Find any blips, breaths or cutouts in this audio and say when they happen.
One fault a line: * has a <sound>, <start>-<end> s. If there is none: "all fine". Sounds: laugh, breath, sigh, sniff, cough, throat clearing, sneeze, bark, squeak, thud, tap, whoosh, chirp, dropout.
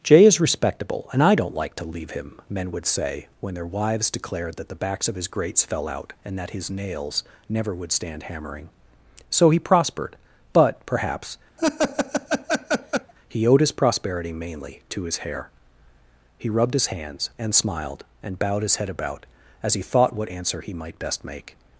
* has a laugh, 11.6-13.1 s